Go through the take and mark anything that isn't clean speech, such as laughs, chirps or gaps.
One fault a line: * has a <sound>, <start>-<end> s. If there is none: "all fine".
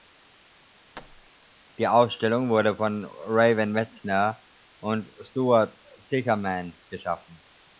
* has a thud, 0.9-1.3 s